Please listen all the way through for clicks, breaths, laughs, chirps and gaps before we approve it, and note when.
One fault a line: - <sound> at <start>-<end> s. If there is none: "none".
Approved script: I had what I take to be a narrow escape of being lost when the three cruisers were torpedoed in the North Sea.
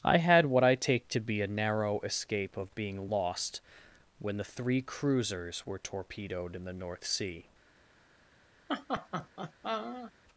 - laugh at 8.7-10.1 s